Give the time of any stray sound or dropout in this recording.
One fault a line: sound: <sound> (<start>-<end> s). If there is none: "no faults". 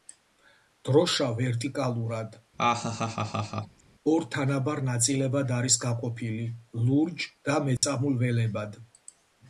sound: laugh (2.6-3.8 s)
sound: dropout (7.8-7.8 s)